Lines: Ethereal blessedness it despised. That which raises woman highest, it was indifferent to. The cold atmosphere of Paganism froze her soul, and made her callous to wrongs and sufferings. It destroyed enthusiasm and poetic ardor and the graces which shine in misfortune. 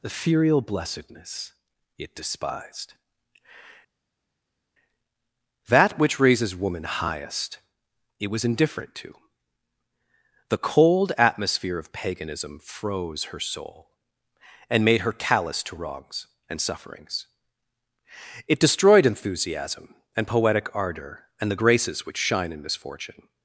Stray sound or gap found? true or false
false